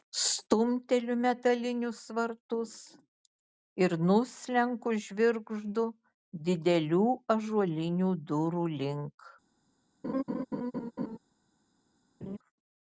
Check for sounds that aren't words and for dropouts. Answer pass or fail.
fail